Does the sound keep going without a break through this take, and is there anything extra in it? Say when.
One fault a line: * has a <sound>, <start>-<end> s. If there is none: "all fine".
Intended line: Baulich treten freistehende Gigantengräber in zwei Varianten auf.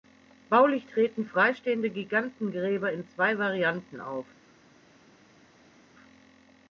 all fine